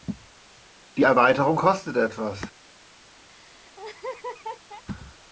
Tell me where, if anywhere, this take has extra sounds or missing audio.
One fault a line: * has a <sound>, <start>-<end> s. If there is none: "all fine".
* has a laugh, 3.3-4.8 s